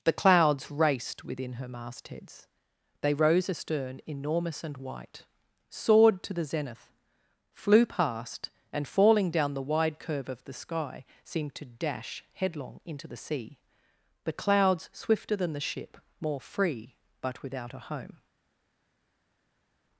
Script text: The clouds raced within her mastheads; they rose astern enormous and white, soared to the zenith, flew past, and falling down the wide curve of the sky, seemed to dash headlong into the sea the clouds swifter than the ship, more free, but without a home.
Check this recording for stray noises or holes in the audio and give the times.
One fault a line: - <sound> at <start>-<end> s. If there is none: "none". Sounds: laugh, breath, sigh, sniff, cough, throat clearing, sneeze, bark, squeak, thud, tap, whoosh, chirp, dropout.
none